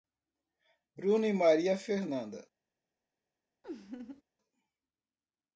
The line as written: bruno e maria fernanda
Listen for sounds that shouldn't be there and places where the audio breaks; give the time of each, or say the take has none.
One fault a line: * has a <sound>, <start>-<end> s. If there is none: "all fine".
* has a laugh, 3.6-4.2 s